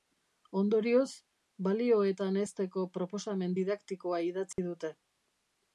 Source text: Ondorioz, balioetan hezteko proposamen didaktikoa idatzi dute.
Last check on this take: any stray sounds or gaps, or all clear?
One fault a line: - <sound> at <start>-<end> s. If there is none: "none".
- dropout at 4.5-4.6 s